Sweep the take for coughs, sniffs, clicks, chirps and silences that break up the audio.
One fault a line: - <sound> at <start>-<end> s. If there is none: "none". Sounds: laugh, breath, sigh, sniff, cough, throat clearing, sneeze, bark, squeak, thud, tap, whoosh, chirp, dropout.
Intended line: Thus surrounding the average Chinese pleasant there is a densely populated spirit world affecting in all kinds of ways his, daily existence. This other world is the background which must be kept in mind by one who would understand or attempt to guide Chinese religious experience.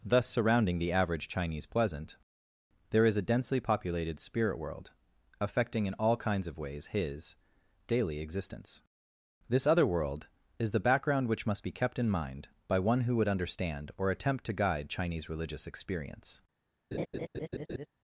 - laugh at 16.9-17.9 s